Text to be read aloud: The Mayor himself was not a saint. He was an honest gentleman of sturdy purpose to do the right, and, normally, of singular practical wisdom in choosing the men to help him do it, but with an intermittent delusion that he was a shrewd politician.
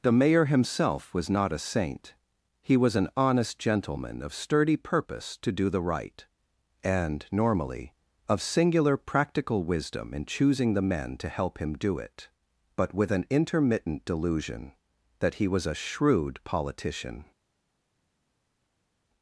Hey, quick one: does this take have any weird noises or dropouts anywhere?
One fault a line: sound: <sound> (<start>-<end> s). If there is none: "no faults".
no faults